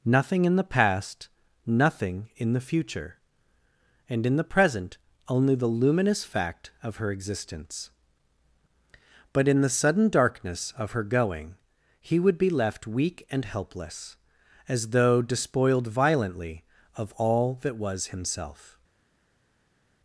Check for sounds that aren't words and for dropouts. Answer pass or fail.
pass